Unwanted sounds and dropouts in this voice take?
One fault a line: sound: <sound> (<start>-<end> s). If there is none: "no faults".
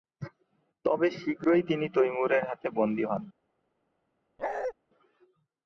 sound: bark (4.4-4.7 s)